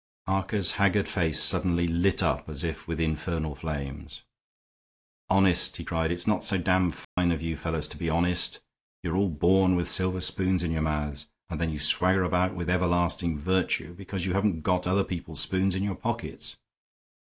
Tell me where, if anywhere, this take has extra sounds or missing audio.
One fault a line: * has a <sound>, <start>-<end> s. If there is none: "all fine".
* has a dropout, 7.0-7.2 s